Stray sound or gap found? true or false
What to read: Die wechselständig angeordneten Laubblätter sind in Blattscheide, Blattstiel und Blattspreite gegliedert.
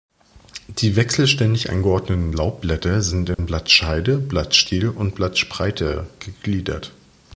true